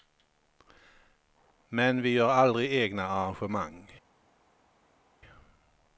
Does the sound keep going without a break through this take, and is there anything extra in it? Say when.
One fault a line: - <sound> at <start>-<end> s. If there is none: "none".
none